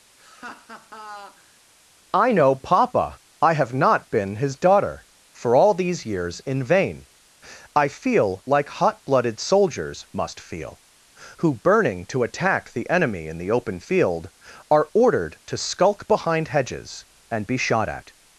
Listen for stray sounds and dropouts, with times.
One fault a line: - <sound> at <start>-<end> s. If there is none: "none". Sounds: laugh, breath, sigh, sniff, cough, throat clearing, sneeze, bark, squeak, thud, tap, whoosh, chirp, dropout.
- laugh at 0.2-1.6 s